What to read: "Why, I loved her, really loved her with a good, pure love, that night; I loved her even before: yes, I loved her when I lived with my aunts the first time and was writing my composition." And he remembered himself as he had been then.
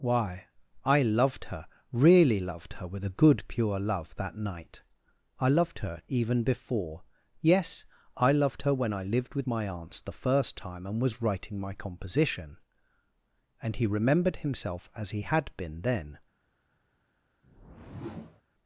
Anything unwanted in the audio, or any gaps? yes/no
yes